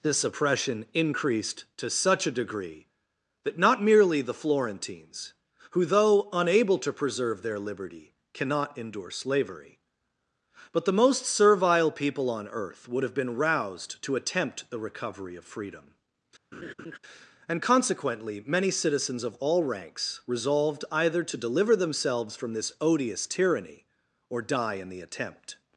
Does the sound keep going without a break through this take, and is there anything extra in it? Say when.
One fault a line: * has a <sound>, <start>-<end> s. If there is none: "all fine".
* has a laugh, 16.5-17.0 s